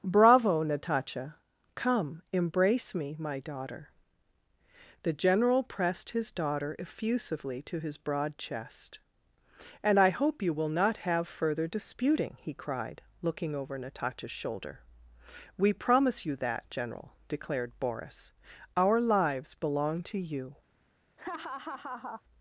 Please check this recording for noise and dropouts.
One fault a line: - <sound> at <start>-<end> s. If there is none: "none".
- laugh at 21.2-22.2 s